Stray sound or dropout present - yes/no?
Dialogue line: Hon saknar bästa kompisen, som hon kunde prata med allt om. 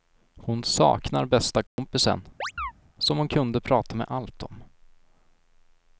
yes